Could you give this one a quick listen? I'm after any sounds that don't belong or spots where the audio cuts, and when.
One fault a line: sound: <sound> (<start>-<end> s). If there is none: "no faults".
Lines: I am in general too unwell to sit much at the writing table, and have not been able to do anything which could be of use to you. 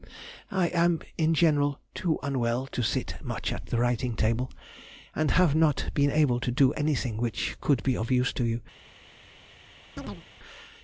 sound: chirp (10.0-10.3 s)